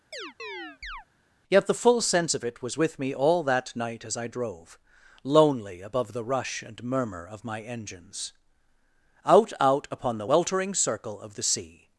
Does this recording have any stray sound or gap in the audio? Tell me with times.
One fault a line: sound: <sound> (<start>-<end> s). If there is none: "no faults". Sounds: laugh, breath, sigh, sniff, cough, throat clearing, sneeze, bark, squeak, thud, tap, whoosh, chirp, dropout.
sound: chirp (0.1-1.1 s)